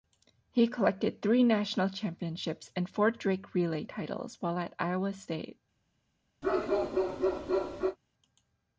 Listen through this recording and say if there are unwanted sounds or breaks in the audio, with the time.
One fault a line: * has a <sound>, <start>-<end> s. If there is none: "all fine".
* has a bark, 6.4-8.0 s